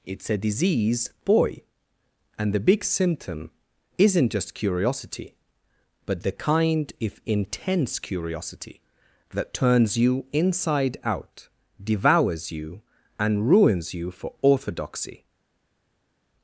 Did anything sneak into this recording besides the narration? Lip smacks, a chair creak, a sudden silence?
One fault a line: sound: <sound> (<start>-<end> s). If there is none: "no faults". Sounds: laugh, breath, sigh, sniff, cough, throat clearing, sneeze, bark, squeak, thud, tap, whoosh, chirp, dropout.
no faults